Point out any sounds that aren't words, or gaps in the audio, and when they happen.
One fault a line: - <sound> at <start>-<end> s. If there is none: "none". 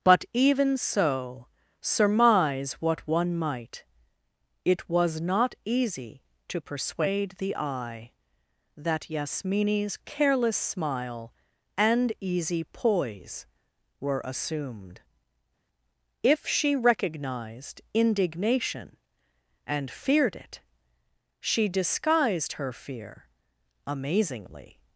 none